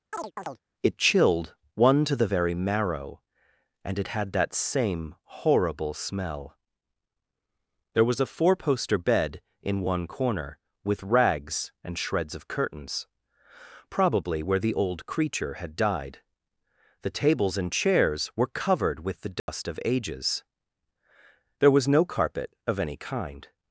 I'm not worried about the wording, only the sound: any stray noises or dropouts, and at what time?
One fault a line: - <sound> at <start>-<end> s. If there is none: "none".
- chirp at 0.1-0.6 s
- dropout at 19.4-19.5 s